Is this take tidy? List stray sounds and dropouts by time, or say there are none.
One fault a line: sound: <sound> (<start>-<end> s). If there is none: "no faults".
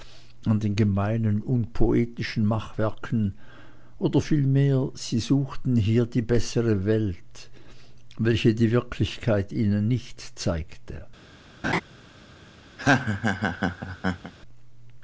sound: laugh (11.6-11.8 s)
sound: laugh (12.8-14.3 s)